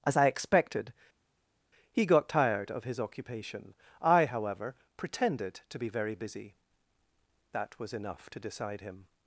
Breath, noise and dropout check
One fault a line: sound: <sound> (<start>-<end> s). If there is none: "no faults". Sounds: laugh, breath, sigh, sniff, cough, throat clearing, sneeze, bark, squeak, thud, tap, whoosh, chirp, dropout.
no faults